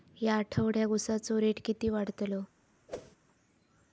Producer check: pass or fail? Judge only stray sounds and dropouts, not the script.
fail